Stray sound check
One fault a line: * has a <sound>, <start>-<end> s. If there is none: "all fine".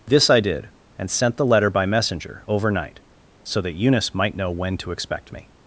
all fine